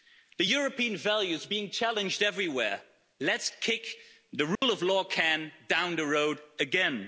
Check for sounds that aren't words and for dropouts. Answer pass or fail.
fail